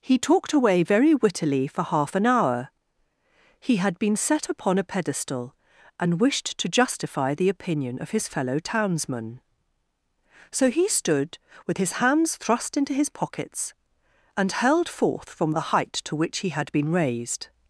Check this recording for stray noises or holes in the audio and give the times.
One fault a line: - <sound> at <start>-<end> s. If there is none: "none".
none